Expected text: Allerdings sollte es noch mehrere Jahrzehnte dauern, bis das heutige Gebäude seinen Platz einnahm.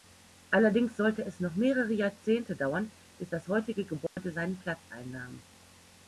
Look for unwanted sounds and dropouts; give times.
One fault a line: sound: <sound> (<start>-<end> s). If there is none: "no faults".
sound: dropout (4.1-4.2 s)